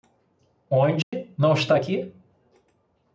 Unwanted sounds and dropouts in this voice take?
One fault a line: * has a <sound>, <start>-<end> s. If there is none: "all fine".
* has a dropout, 1.0-1.1 s